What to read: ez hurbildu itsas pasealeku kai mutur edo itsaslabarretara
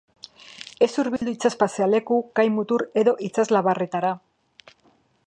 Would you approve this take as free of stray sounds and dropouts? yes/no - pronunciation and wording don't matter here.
no